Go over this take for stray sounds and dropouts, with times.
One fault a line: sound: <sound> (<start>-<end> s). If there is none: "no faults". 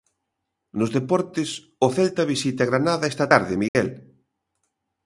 sound: dropout (3.7-3.8 s)